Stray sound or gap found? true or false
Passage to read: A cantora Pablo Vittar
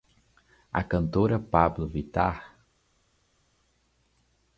false